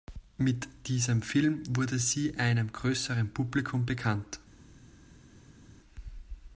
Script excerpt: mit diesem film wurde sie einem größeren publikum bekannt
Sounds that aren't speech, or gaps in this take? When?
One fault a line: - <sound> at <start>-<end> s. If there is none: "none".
none